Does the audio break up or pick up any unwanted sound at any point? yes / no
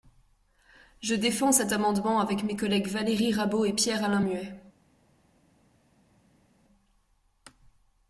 no